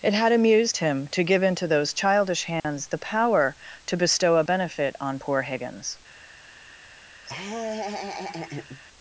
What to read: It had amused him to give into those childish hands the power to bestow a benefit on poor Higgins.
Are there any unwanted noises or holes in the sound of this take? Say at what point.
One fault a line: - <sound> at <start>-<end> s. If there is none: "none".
- dropout at 2.6-2.6 s
- laugh at 7.2-8.8 s